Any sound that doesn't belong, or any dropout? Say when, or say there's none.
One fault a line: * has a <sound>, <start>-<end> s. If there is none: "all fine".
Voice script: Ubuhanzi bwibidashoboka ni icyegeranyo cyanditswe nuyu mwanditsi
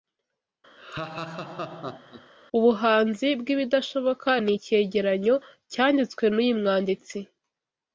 * has a laugh, 0.8-2.3 s